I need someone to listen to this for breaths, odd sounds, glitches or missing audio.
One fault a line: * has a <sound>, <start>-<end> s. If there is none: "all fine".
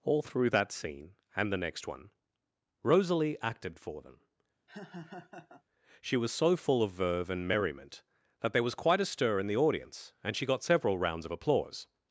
* has a laugh, 4.7-5.6 s